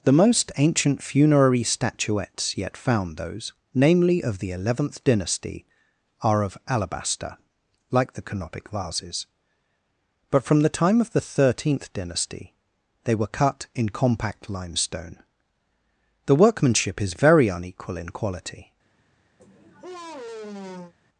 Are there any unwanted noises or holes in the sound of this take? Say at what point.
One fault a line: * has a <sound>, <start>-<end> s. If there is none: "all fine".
* has a sigh, 19.4-20.9 s